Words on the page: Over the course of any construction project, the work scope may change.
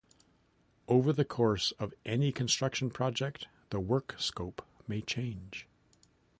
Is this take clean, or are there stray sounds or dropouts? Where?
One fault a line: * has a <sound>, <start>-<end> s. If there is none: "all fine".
all fine